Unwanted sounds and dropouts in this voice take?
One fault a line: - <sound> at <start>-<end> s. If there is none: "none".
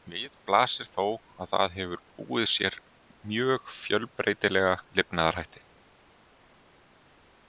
none